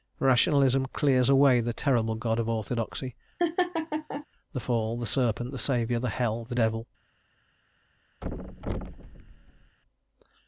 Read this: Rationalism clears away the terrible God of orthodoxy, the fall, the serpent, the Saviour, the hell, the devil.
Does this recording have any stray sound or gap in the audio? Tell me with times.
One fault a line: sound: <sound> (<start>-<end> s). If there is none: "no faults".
sound: laugh (3.4-4.3 s)
sound: thud (8.2-9.8 s)